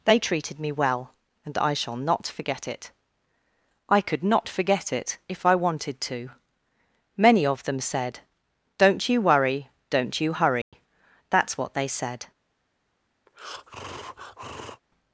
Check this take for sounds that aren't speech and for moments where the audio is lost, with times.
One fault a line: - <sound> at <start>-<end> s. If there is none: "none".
- dropout at 10.6-10.7 s
- breath at 13.3-14.8 s